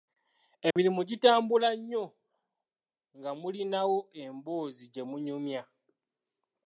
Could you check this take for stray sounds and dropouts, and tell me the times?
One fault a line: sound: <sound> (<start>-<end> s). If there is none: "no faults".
sound: dropout (0.7-0.8 s)